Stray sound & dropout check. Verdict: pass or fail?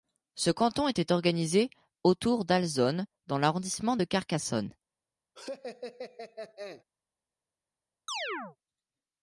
fail